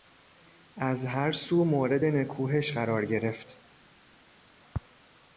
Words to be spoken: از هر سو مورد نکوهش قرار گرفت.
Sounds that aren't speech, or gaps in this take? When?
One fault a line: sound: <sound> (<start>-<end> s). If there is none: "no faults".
no faults